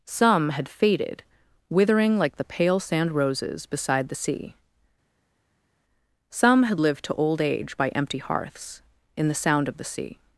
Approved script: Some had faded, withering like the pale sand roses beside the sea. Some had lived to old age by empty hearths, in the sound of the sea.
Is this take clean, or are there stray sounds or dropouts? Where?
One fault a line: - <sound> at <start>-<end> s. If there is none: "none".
none